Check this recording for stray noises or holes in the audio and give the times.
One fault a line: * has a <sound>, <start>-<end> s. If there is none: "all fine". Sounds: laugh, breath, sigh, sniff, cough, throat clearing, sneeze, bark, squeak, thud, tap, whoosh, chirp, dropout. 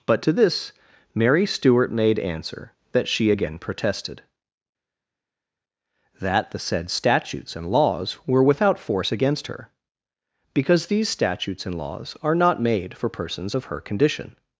all fine